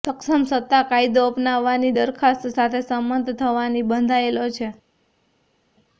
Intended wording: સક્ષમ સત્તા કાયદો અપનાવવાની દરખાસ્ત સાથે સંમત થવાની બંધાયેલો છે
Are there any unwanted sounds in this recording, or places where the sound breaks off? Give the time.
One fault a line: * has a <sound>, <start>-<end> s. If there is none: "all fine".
all fine